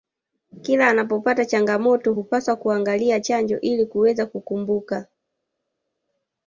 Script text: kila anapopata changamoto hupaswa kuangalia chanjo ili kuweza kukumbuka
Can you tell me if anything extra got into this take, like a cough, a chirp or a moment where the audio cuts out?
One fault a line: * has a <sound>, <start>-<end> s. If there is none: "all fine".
all fine